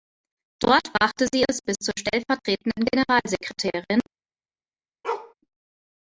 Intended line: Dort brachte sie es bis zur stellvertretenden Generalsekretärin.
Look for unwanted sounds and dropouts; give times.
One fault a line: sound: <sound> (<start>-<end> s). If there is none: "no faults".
sound: bark (5.0-5.3 s)